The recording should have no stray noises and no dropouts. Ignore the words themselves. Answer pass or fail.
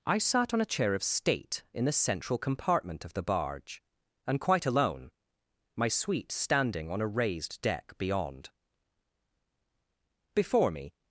pass